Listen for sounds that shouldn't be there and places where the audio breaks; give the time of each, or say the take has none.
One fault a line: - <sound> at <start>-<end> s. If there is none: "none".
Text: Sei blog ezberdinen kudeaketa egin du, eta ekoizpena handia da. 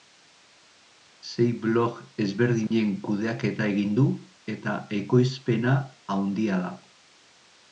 - dropout at 2.7-2.7 s